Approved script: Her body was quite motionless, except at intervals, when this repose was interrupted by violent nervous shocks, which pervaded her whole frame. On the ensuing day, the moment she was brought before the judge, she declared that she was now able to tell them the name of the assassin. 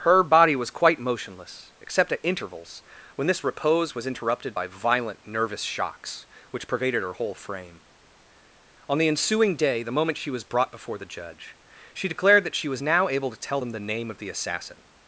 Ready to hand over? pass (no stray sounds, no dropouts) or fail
pass